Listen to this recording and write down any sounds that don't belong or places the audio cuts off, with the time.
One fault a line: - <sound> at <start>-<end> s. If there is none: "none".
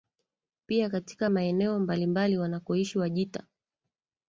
none